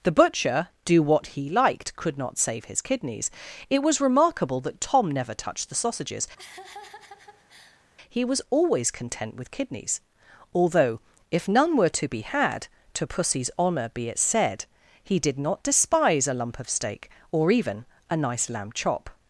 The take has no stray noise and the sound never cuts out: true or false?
false